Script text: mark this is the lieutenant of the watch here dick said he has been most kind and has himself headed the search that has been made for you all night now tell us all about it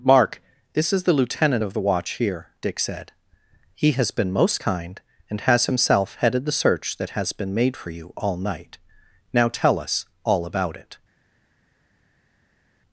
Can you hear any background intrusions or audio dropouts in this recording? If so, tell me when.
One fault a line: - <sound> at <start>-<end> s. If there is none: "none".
none